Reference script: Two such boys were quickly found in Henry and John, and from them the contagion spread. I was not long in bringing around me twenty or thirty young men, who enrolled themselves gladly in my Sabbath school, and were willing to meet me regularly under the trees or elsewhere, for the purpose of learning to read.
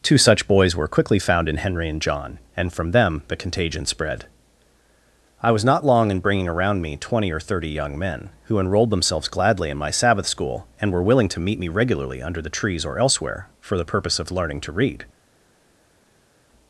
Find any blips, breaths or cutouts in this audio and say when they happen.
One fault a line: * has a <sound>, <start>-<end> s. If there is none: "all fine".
all fine